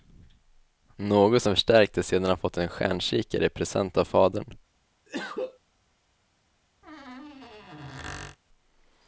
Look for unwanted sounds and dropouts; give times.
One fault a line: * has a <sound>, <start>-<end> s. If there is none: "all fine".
* has a cough, 5.1-5.6 s
* has a squeak, 6.8-8.4 s